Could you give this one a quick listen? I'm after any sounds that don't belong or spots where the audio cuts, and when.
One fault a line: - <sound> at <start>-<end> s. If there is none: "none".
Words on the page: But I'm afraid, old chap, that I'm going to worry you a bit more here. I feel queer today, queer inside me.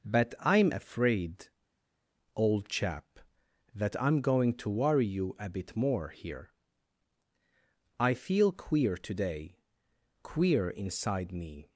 none